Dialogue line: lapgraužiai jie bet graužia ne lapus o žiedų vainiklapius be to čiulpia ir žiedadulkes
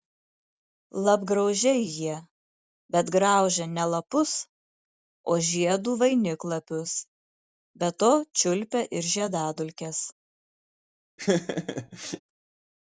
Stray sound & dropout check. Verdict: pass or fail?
fail